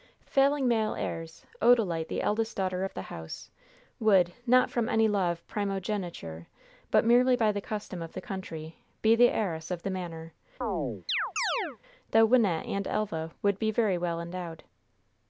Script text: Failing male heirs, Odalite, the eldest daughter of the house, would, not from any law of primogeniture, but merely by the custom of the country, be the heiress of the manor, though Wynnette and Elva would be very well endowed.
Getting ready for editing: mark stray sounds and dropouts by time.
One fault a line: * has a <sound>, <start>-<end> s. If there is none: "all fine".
* has a chirp, 10.6-11.8 s